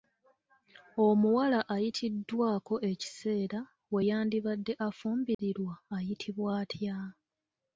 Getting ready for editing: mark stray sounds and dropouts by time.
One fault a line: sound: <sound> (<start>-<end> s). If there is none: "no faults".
sound: dropout (5.3-5.4 s)